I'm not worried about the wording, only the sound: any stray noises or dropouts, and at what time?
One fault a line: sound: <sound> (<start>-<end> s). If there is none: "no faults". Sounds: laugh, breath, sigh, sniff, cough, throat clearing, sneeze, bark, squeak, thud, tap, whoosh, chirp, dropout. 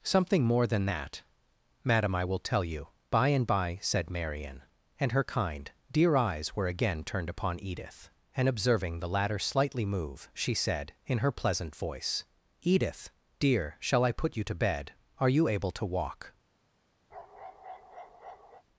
sound: bark (17.1-18.6 s)